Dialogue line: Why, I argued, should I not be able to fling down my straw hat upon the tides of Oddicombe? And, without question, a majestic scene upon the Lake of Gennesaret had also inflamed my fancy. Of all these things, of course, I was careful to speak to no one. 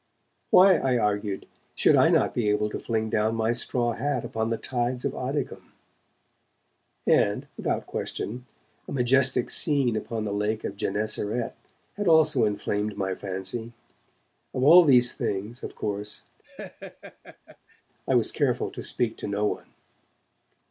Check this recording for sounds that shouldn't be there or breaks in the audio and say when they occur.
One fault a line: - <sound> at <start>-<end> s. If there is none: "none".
- laugh at 16.4-17.8 s